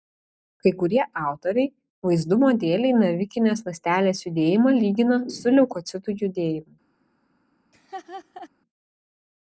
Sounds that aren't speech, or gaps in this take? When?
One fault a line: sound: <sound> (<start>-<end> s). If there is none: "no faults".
sound: laugh (7.7-8.5 s)